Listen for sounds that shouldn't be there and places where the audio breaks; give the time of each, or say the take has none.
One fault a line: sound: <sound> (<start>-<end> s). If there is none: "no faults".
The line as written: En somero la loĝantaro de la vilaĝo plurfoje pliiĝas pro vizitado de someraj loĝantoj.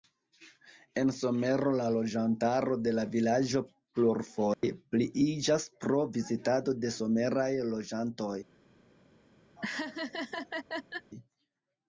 sound: dropout (4.5-4.6 s)
sound: laugh (9.6-11.1 s)